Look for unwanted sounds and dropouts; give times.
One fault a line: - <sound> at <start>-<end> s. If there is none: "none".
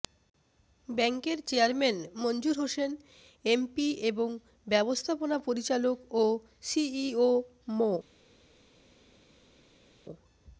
none